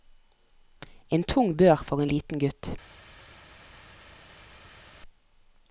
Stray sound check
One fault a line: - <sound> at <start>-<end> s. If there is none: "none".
none